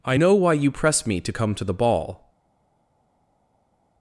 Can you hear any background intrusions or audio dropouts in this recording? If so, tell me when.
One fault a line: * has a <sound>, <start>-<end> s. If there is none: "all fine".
all fine